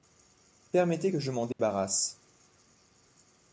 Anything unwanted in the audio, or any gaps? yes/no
yes